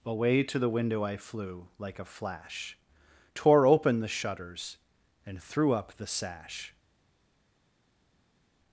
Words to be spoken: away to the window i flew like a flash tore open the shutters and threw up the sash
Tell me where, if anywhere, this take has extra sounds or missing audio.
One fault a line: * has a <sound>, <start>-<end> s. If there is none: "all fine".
all fine